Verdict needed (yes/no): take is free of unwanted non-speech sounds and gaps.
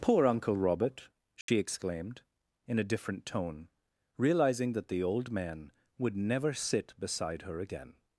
no